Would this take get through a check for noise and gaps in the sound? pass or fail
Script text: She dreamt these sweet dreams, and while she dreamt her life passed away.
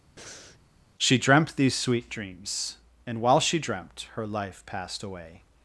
fail